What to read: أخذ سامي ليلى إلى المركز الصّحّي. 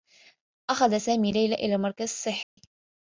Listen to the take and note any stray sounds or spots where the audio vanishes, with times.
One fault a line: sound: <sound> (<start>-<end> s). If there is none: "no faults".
sound: dropout (2.4-2.6 s)